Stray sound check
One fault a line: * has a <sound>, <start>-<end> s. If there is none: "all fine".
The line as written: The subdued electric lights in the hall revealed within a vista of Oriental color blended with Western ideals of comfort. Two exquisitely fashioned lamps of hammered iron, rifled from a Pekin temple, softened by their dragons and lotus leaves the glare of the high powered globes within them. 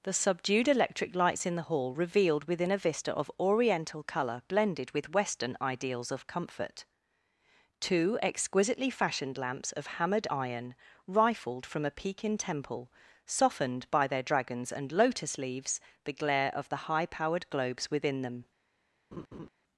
* has a laugh, 19.1-19.5 s